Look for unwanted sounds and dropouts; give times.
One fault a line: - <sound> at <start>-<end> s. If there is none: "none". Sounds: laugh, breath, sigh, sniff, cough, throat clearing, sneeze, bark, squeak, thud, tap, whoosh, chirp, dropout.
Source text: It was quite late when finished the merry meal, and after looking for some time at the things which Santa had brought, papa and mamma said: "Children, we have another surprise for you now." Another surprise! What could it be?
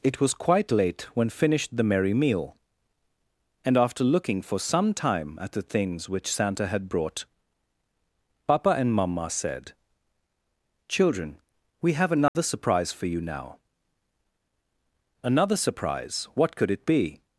- dropout at 12.3-12.4 s